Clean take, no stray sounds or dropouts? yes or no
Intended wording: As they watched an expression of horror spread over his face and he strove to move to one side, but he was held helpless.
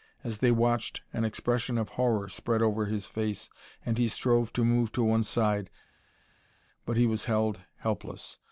yes